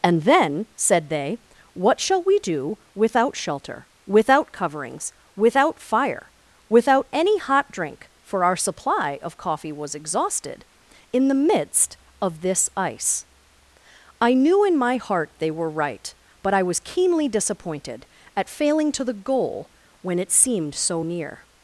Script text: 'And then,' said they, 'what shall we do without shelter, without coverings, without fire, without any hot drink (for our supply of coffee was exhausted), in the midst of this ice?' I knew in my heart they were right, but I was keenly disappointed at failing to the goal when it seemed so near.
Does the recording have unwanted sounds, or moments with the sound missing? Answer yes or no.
no